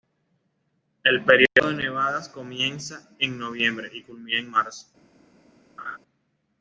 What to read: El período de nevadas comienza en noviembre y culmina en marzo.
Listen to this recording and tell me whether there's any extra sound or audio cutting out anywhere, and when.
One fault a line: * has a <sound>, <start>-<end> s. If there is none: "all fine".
* has a laugh, 5.8-6.0 s